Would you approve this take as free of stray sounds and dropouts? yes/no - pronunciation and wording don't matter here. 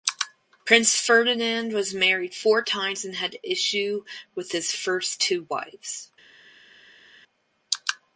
yes